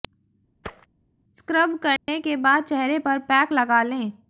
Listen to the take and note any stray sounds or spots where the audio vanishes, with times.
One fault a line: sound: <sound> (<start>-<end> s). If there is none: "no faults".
sound: thud (0.6-0.9 s)
sound: dropout (2.0-2.1 s)